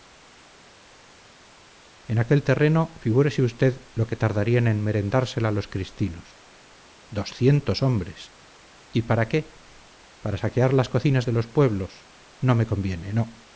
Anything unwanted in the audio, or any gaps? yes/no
no